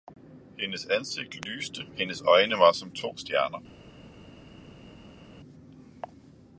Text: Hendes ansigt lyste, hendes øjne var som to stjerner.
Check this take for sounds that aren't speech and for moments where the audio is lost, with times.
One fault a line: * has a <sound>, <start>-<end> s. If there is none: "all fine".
all fine